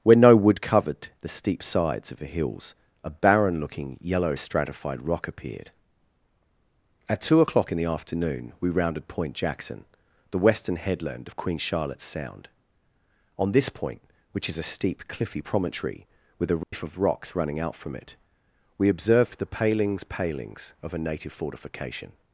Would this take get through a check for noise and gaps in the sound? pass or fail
fail